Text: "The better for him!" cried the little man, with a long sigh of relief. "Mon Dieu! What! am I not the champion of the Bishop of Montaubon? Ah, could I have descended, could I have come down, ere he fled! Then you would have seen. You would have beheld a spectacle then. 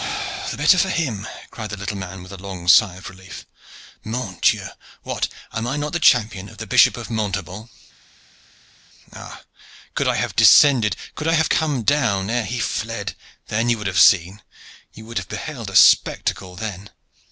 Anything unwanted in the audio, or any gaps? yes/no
no